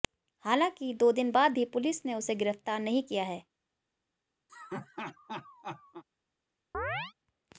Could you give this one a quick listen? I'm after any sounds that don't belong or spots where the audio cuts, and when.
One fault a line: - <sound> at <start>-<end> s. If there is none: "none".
- laugh at 4.5-6.0 s
- chirp at 6.7-7.1 s